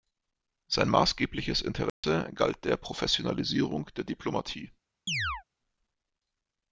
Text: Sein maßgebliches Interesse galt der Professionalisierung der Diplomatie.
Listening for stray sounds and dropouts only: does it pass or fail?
fail